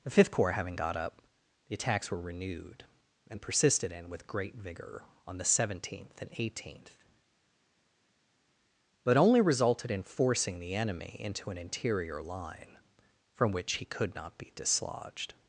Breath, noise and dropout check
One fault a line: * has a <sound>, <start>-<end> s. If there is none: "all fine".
all fine